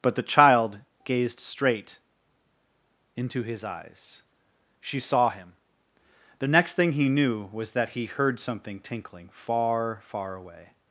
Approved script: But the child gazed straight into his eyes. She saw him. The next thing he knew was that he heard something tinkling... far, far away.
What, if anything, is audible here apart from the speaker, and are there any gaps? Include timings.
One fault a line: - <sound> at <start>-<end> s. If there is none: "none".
none